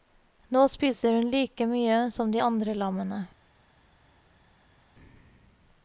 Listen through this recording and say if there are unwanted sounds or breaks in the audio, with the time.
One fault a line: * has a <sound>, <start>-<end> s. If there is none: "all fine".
all fine